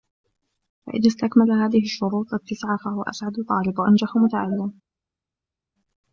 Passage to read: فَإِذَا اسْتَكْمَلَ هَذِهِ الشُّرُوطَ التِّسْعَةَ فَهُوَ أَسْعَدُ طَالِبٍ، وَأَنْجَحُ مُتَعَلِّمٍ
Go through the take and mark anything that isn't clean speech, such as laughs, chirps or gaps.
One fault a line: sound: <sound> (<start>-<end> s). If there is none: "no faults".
no faults